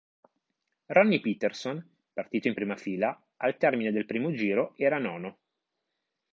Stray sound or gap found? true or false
false